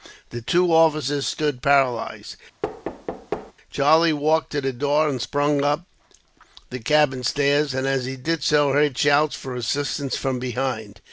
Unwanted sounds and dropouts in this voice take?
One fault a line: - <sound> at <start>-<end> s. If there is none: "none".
- thud at 2.6-3.5 s